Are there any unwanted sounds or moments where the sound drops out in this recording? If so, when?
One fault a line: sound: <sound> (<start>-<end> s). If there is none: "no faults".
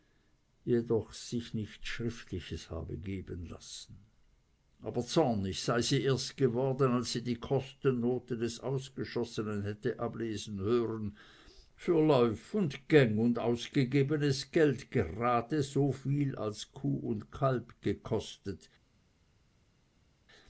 no faults